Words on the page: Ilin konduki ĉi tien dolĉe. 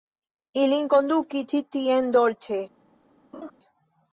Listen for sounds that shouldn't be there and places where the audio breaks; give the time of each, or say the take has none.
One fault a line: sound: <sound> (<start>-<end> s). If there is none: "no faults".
sound: laugh (3.3-3.5 s)